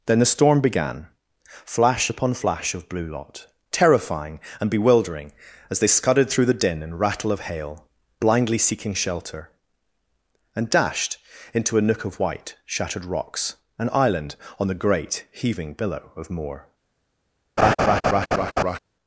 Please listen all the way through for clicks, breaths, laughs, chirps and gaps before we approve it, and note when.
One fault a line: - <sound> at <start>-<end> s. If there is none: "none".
- laugh at 17.6-18.8 s